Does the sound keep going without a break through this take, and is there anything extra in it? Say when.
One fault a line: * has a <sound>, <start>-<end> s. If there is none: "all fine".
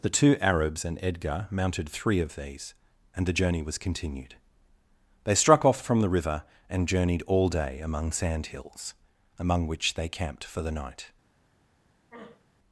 * has a throat clearing, 12.1-12.5 s